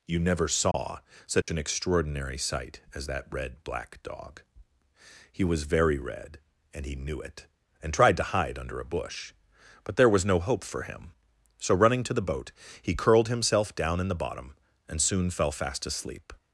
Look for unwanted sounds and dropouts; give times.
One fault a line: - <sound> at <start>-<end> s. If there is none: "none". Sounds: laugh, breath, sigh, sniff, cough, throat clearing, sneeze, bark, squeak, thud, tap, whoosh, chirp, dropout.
- dropout at 0.7-0.7 s
- dropout at 1.4-1.5 s